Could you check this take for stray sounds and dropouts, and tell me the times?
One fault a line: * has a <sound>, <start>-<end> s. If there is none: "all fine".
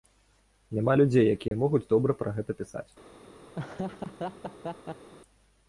* has a dropout, 1.5-1.5 s
* has a laugh, 3.5-5.1 s